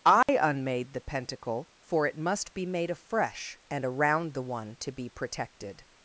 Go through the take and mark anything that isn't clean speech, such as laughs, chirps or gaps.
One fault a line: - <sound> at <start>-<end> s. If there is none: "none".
- dropout at 0.2-0.3 s